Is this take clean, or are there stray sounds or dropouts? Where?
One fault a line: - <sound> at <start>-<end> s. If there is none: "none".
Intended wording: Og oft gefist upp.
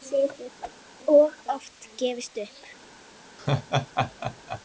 - whoosh at 0.6-0.7 s
- laugh at 3.4-4.6 s